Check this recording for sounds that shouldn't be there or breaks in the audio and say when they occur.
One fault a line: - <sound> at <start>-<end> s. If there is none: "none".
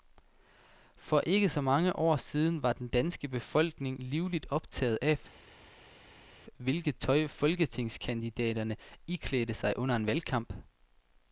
none